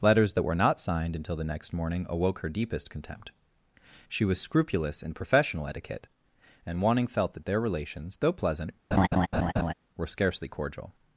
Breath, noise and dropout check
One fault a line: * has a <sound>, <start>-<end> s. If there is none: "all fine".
* has a laugh, 8.9-9.7 s